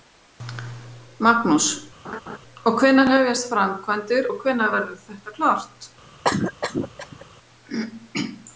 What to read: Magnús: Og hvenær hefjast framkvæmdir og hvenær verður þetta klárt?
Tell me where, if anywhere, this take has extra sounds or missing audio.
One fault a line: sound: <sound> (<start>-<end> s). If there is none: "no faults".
sound: laugh (2.0-2.4 s)
sound: cough (6.2-7.3 s)